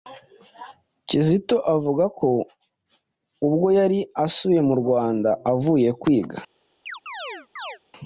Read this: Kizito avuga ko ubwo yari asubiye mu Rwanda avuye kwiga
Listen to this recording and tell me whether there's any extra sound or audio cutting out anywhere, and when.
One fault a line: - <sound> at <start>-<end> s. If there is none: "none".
- chirp at 6.9-7.8 s